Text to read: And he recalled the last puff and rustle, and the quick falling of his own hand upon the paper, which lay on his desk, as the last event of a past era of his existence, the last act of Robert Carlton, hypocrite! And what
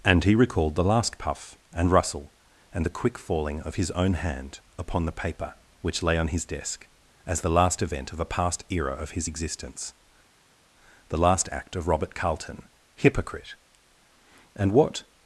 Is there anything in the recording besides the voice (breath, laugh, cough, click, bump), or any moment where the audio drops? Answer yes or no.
no